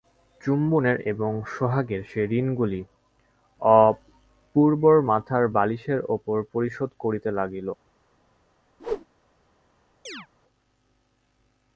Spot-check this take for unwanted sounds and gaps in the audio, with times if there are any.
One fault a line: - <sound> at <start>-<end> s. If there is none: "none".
- whoosh at 8.8-9.1 s
- chirp at 10.1-10.3 s